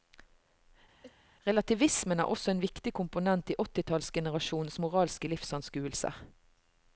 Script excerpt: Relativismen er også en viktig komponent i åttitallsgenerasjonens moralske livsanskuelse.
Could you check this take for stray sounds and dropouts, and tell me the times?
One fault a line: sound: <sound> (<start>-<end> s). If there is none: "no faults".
sound: sneeze (1.0-1.2 s)